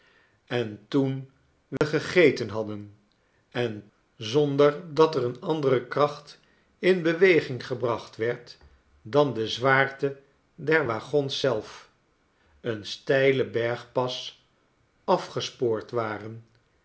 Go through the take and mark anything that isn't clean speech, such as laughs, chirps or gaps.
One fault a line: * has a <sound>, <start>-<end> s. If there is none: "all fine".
* has a dropout, 1.8-1.8 s